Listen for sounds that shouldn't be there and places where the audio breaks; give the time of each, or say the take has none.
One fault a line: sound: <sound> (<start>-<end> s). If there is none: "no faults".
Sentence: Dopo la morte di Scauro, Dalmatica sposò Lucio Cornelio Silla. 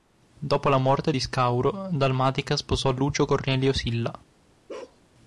sound: bark (4.7-5.0 s)